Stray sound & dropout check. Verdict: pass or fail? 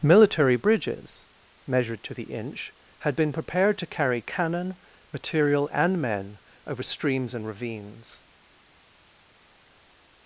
pass